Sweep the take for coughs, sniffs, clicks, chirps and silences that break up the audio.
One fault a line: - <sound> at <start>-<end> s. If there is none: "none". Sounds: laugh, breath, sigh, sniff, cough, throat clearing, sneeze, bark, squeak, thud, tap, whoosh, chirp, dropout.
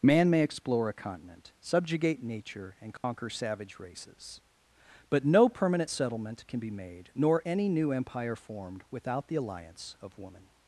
- dropout at 3.0-3.0 s